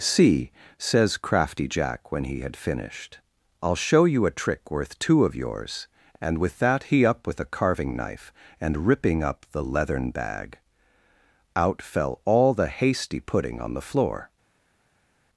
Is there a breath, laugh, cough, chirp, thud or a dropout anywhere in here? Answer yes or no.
no